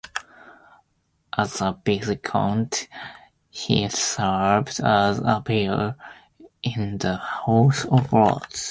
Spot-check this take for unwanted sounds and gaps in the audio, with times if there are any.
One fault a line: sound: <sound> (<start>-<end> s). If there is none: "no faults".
no faults